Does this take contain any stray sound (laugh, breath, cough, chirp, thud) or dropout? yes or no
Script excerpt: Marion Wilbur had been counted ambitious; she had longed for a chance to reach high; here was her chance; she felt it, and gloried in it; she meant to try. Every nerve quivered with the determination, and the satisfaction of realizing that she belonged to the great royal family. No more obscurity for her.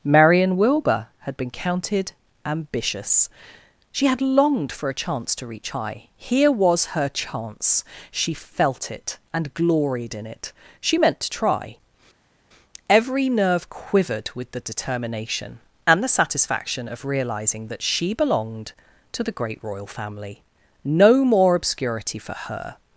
no